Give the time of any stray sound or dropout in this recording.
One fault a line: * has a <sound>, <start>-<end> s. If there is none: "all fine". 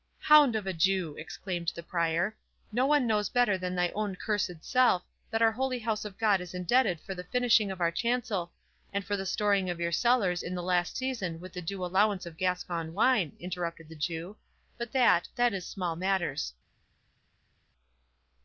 all fine